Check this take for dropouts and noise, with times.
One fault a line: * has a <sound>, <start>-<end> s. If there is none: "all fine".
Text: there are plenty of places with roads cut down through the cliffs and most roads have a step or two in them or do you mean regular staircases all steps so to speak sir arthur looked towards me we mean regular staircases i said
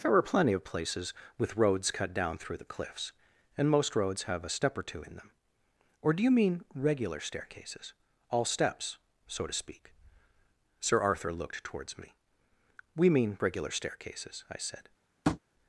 * has a tap, 15.2-15.4 s